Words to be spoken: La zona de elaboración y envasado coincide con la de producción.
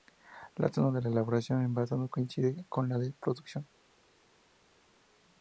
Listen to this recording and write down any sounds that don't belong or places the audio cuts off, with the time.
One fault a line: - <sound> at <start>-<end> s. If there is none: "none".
none